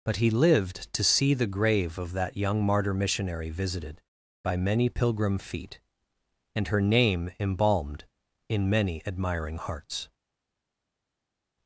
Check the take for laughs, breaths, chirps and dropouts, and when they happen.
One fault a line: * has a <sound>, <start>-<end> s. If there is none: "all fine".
all fine